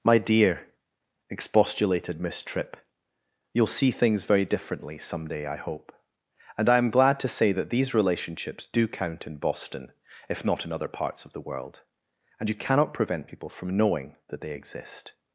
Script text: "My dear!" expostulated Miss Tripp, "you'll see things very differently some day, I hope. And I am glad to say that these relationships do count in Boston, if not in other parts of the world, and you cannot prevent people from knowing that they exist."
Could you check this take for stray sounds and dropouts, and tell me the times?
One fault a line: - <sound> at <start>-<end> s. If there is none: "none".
none